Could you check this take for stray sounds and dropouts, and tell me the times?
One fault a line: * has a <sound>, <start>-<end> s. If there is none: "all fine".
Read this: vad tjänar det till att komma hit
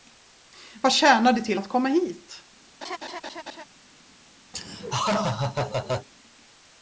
* has a laugh, 2.8-3.6 s
* has a laugh, 4.5-6.1 s